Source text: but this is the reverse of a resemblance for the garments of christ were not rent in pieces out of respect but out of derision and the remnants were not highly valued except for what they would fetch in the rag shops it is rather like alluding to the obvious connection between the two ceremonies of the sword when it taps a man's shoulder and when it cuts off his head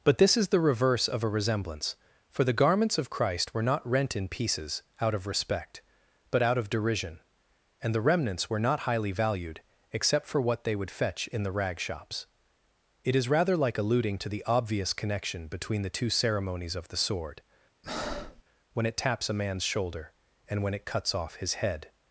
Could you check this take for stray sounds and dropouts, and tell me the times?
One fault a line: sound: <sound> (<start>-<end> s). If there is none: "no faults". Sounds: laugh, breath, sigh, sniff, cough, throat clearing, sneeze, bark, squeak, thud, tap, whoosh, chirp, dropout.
sound: breath (17.8-18.4 s)